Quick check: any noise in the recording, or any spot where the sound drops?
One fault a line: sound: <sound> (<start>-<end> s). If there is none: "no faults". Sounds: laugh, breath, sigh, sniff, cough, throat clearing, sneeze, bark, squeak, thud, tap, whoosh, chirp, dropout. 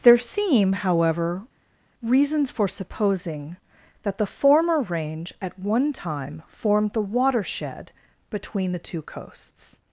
no faults